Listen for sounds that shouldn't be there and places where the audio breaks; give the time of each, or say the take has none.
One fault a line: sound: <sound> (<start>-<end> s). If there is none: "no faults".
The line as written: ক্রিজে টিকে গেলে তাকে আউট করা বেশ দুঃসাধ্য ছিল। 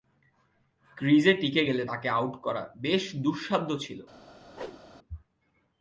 sound: whoosh (4.5-4.8 s)